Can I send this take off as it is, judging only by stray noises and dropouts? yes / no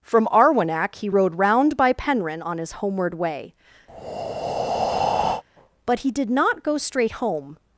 no